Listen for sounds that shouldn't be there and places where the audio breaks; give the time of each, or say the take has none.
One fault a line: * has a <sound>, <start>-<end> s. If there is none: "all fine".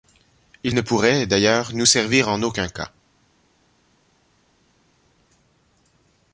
all fine